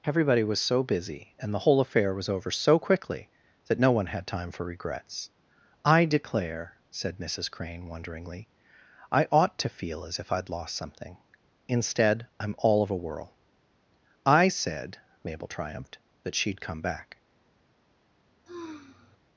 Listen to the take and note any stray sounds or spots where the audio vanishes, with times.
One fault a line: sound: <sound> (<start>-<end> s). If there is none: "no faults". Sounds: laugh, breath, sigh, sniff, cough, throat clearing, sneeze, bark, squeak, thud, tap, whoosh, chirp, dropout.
sound: sigh (18.5-19.2 s)